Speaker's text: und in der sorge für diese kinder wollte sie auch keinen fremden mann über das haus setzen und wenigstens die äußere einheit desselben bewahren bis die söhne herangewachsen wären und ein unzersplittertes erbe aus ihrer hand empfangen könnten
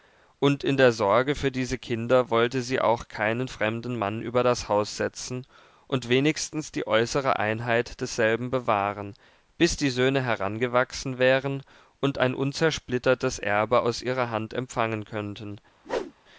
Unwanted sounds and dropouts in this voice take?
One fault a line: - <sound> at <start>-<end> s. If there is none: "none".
- whoosh at 15.8-16.1 s